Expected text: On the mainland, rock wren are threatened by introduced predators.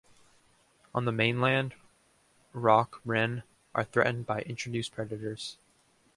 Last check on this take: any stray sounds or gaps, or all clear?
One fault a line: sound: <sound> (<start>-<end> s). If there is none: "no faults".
no faults